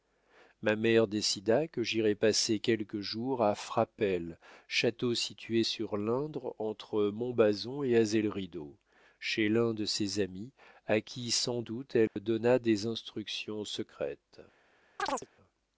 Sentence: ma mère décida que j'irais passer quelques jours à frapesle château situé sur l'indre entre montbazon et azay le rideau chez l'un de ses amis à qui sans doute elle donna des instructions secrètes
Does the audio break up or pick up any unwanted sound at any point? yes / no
yes